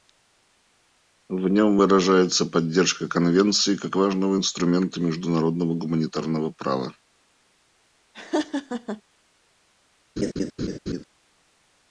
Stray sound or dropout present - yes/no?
yes